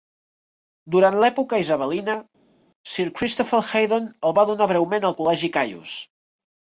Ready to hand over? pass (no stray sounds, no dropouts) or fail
pass